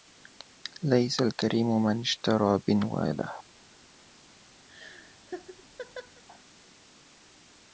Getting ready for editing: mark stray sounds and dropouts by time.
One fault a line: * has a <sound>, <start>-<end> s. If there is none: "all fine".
* has a laugh, 4.7-6.2 s